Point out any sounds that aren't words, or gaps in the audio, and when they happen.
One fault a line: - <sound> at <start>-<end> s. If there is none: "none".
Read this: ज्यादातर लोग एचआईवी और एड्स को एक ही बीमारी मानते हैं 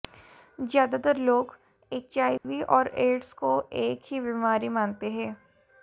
- dropout at 2.4-2.4 s